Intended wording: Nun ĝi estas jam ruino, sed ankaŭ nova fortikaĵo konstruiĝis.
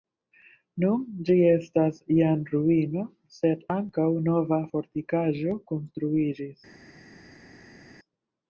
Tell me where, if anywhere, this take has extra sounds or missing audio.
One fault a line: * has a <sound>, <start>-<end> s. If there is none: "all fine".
all fine